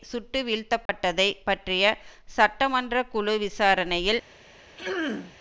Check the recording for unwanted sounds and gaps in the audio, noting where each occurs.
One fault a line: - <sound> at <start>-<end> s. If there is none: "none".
- dropout at 0.9-0.9 s
- throat clearing at 4.8-5.4 s